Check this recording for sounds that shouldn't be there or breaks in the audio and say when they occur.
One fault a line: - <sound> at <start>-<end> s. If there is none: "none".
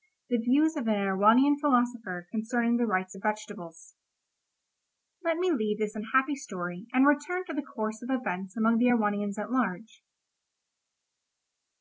none